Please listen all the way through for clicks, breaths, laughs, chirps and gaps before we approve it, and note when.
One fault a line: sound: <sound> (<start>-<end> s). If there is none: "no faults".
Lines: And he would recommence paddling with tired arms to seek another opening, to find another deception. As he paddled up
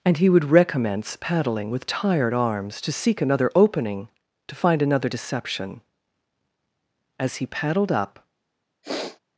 sound: sniff (8.8-9.2 s)